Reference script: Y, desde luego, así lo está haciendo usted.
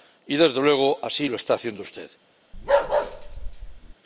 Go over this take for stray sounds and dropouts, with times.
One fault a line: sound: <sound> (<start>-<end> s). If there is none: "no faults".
sound: bark (2.5-3.9 s)